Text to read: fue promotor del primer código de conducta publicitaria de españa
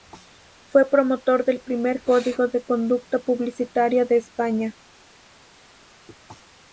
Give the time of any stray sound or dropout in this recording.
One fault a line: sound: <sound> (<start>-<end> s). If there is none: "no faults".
no faults